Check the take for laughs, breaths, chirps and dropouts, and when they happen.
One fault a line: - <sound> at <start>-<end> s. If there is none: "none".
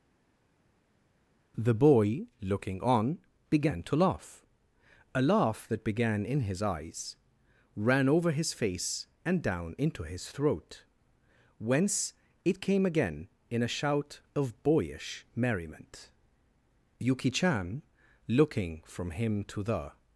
none